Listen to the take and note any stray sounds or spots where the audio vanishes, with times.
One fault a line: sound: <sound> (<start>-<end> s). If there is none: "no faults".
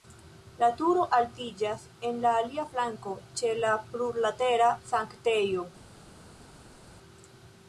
no faults